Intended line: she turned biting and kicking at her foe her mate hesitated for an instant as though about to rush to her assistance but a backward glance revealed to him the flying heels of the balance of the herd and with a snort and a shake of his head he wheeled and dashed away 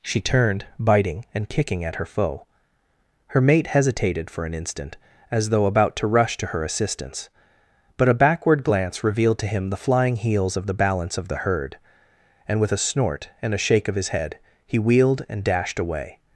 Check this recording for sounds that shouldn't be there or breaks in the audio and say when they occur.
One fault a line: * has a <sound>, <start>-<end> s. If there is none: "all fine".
all fine